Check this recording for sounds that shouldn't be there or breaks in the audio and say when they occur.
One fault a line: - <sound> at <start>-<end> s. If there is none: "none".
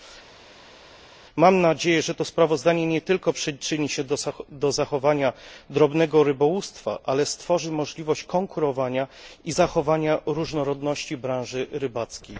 none